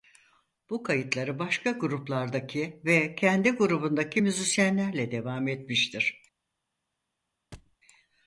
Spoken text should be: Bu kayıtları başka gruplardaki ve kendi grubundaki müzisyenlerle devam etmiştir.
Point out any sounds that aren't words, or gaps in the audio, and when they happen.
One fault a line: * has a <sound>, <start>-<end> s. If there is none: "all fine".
* has a thud, 7.5-7.8 s